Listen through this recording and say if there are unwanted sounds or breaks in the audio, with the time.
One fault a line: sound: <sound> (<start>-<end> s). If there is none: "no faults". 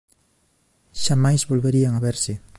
no faults